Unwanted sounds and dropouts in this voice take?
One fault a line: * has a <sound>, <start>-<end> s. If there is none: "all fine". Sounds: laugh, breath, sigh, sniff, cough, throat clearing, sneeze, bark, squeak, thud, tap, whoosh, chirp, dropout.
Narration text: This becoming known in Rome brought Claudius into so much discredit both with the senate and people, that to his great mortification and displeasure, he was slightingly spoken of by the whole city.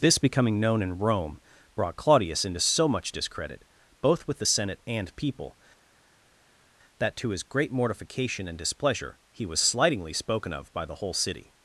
all fine